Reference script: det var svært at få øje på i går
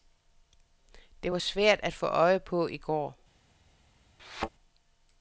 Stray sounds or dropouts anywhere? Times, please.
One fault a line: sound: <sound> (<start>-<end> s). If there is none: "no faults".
sound: thud (4.2-4.5 s)